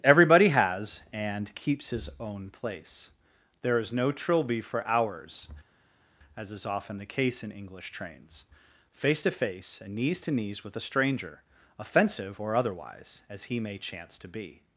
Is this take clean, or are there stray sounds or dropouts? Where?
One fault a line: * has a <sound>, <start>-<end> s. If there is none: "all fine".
all fine